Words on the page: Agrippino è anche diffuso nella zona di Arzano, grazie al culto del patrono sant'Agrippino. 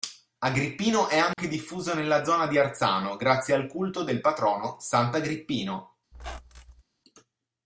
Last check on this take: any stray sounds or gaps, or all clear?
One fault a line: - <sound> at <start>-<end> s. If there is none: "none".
- dropout at 1.3-1.4 s
- squeak at 6.1-6.8 s